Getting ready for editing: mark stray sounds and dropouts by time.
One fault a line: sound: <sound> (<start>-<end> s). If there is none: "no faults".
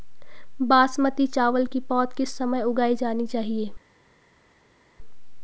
no faults